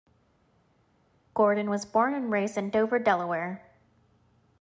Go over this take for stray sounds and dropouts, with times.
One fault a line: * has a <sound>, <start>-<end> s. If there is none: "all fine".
all fine